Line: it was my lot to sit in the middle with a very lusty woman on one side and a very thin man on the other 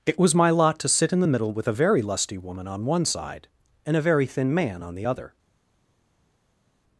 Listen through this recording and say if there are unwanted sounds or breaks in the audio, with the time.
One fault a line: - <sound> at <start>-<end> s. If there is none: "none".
none